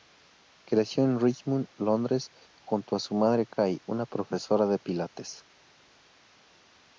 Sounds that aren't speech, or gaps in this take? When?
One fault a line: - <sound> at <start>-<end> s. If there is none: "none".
none